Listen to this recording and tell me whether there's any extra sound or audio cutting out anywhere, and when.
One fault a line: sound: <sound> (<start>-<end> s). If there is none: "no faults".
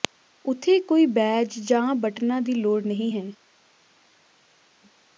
no faults